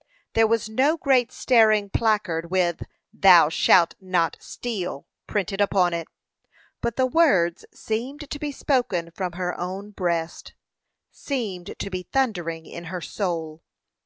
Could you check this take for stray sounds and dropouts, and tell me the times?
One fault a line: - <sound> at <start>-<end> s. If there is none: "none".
none